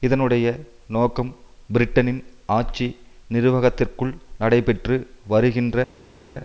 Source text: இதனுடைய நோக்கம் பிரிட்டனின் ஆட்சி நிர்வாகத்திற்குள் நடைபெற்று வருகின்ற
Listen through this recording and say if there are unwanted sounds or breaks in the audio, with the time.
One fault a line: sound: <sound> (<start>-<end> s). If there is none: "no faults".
no faults